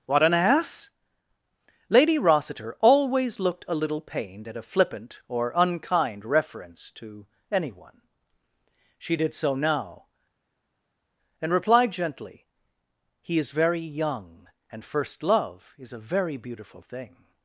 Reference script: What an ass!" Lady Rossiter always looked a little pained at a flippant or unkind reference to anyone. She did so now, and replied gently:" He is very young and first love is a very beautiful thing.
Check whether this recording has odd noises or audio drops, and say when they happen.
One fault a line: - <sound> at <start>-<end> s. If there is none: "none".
none